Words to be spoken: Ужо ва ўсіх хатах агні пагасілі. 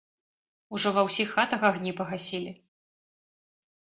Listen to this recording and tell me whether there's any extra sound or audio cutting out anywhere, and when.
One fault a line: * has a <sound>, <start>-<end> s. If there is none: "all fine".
all fine